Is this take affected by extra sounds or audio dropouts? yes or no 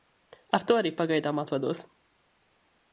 no